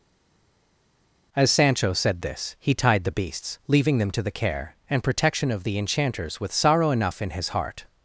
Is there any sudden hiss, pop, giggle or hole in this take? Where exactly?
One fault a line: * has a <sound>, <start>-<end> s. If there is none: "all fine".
all fine